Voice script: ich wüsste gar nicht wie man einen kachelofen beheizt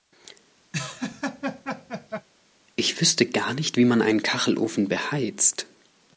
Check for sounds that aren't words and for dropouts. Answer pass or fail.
fail